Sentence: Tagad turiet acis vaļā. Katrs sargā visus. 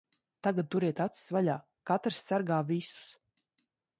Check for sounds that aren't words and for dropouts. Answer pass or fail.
pass